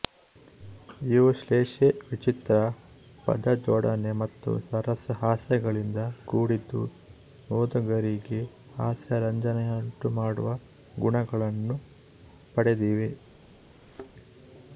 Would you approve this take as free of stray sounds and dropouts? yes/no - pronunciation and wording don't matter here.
no